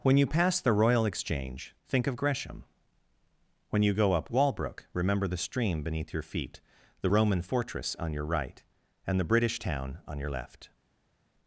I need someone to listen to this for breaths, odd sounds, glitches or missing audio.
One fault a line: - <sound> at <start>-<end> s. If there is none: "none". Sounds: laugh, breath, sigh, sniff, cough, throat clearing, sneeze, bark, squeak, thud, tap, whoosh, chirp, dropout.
none